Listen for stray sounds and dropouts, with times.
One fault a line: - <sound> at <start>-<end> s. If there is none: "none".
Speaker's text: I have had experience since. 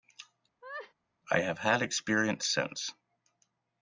- laugh at 0.6-0.9 s